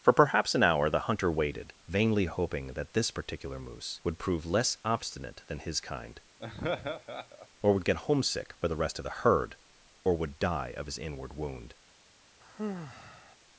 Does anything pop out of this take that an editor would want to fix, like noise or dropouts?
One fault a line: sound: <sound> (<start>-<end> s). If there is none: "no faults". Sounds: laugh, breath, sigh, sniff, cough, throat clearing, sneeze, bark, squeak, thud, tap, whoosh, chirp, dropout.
sound: laugh (6.4-7.5 s)
sound: sigh (12.4-13.4 s)